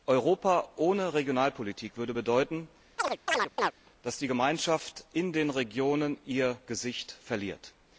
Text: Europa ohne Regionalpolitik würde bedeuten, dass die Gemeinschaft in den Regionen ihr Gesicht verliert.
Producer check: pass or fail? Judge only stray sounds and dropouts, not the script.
fail